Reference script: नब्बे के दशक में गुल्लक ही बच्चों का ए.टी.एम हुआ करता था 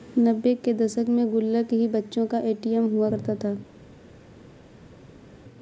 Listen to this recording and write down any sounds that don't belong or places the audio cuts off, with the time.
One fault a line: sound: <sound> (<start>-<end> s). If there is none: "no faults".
no faults